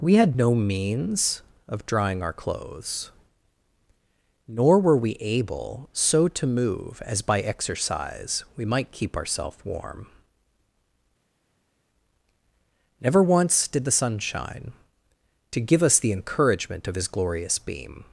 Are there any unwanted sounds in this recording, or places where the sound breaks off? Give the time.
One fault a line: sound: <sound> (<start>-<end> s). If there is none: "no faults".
no faults